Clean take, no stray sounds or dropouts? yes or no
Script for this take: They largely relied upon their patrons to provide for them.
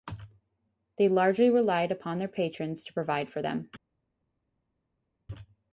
yes